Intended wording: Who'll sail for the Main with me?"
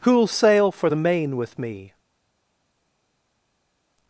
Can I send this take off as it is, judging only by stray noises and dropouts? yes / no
yes